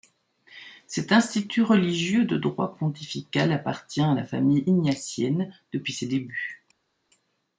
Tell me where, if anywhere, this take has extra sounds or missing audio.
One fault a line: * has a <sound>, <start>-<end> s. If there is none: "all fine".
all fine